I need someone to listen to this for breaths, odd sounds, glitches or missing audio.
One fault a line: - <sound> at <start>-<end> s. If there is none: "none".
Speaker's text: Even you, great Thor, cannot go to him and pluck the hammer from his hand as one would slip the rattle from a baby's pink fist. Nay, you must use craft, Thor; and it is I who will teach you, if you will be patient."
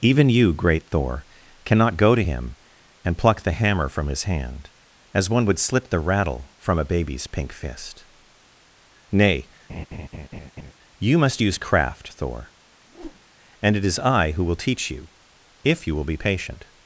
- laugh at 9.7-10.7 s
- whoosh at 12.9-13.2 s